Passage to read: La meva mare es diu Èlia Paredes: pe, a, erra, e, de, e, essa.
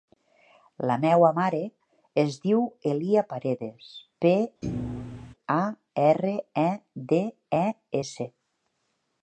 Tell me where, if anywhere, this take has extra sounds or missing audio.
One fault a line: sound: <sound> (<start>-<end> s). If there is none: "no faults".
sound: thud (4.6-5.3 s)